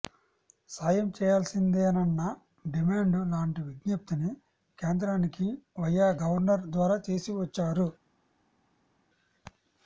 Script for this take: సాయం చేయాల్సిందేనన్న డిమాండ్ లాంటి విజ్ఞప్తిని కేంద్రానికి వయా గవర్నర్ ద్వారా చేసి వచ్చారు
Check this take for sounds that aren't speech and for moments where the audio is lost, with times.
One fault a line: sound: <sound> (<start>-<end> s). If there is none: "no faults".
no faults